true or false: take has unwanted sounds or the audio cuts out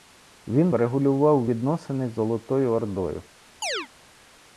true